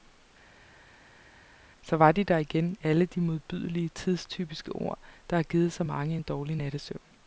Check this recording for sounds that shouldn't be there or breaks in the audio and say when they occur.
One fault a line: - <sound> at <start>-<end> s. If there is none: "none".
none